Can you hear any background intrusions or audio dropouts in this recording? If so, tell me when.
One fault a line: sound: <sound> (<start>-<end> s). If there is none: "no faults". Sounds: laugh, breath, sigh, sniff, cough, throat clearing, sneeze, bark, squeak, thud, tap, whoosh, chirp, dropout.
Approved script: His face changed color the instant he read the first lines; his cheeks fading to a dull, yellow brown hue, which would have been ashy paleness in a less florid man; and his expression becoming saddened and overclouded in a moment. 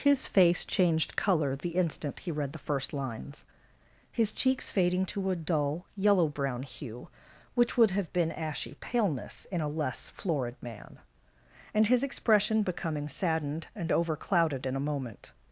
no faults